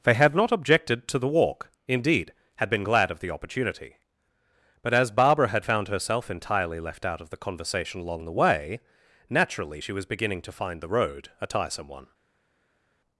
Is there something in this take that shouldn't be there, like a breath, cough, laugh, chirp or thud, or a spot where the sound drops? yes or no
no